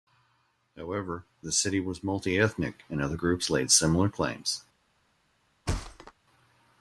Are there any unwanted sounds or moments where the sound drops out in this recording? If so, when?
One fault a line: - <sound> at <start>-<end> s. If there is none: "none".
- thud at 5.7-6.1 s